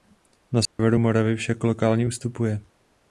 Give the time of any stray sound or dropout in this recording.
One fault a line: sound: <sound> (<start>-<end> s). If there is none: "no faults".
sound: dropout (0.7-0.8 s)